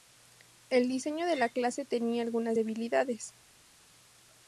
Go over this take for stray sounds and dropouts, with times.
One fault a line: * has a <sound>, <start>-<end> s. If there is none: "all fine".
all fine